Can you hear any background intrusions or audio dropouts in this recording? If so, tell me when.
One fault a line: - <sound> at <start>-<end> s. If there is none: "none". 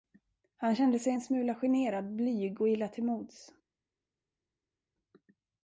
none